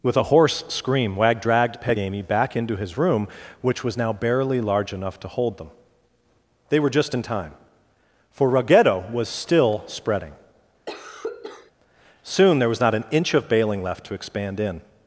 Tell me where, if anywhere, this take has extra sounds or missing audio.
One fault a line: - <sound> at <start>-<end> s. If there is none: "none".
- cough at 10.9-11.7 s